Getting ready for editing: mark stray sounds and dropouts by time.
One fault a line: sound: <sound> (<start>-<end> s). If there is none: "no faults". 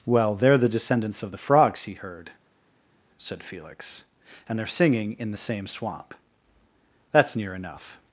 no faults